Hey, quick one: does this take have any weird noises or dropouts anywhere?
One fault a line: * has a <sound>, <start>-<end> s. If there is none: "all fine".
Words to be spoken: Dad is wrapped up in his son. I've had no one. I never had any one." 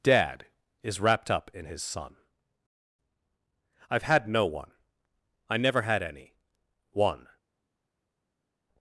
all fine